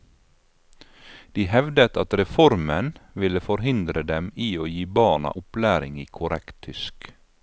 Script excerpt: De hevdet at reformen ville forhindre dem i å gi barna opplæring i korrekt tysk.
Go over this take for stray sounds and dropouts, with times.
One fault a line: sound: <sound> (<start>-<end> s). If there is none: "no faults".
no faults